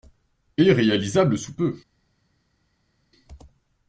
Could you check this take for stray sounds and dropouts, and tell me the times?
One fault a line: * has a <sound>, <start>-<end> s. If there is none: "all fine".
all fine